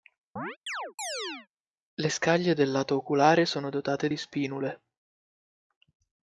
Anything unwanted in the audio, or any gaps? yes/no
yes